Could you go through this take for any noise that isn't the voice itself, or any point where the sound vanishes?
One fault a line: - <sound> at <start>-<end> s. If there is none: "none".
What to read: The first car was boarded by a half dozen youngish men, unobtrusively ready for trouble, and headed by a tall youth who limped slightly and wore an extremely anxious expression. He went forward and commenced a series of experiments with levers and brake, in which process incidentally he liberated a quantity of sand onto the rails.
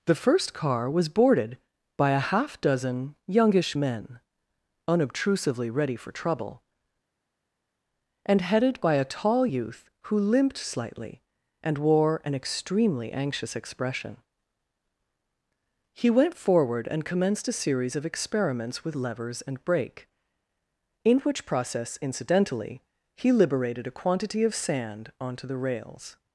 none